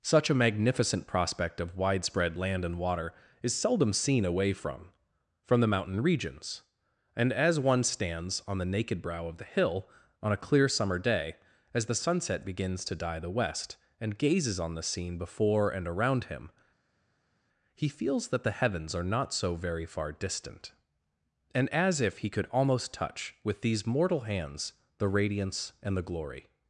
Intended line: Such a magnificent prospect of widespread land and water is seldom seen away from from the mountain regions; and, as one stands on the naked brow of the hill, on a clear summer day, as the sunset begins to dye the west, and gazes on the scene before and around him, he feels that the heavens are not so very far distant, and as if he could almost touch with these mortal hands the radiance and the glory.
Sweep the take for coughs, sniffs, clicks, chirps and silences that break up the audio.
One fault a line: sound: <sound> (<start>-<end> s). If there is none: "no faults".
no faults